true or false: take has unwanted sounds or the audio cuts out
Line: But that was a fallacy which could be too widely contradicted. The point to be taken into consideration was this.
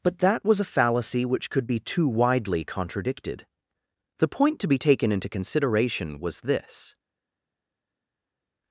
false